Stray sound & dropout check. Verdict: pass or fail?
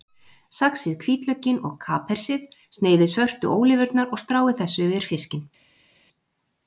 pass